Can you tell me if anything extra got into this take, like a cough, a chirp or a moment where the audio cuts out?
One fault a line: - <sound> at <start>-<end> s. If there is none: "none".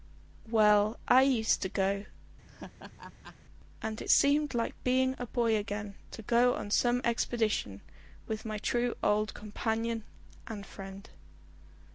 - laugh at 2.5-3.4 s